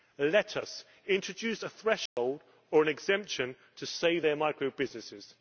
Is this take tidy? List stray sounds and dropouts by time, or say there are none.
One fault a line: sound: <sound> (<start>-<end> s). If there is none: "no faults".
sound: dropout (2.1-2.2 s)